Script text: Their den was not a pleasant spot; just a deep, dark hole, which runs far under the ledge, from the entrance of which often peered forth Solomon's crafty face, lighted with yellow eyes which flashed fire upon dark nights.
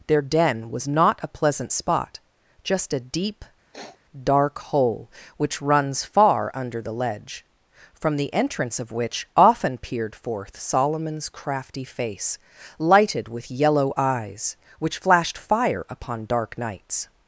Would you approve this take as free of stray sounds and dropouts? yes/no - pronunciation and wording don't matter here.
no